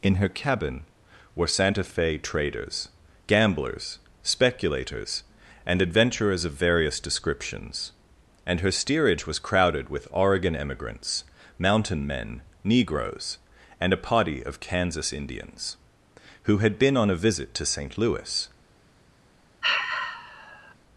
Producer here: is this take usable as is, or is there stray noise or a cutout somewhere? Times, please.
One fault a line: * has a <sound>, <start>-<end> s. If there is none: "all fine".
* has a sigh, 19.6-20.7 s